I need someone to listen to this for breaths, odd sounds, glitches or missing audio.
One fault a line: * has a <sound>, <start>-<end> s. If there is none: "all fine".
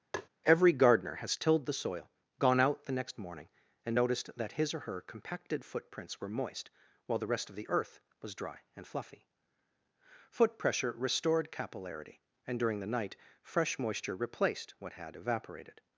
* has a tap, 0.1-0.3 s